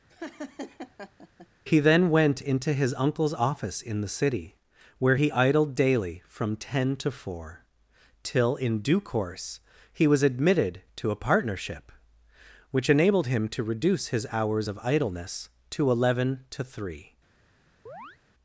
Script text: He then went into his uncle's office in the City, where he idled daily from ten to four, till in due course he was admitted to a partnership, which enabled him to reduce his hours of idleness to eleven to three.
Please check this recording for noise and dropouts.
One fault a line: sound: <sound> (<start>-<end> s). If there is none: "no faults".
sound: laugh (0.1-1.5 s)
sound: chirp (17.9-18.2 s)